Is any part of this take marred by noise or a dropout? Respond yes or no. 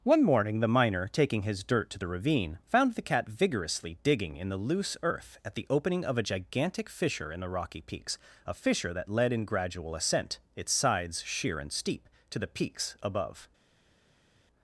no